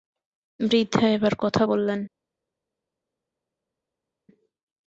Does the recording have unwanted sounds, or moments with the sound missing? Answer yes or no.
no